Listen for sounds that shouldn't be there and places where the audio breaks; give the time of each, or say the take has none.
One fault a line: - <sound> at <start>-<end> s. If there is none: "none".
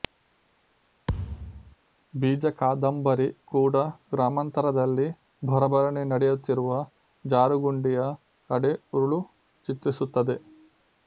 - thud at 1.1-1.8 s